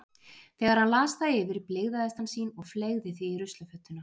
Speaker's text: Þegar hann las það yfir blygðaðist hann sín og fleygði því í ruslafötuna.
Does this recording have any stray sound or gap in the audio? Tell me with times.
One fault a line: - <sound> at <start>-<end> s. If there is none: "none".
none